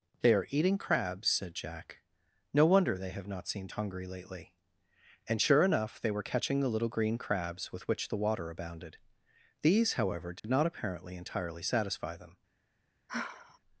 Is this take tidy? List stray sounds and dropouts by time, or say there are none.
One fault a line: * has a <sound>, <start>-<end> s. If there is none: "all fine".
* has a dropout, 10.4-10.4 s
* has a sigh, 13.1-13.6 s